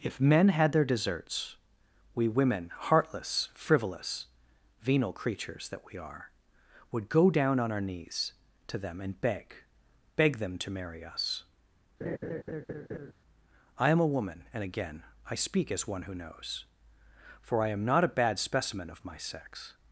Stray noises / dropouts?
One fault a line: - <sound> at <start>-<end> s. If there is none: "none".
- laugh at 12.0-13.1 s